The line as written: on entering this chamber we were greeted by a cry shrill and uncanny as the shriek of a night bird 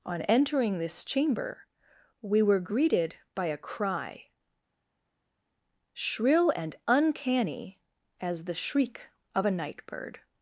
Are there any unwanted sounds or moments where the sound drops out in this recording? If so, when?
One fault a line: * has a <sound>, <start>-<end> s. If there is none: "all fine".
all fine